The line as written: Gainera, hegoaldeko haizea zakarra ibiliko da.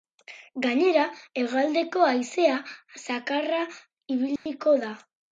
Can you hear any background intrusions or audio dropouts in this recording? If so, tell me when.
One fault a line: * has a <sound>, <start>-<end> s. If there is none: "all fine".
* has a dropout, 4.4-4.5 s